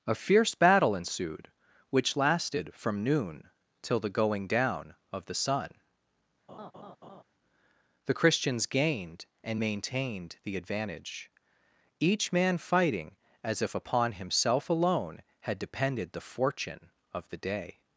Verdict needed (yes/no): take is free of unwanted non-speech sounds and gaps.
no